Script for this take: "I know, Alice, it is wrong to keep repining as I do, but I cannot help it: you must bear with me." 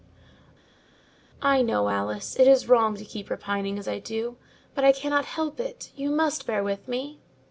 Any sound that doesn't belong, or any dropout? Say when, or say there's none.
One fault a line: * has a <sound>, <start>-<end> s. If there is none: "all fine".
all fine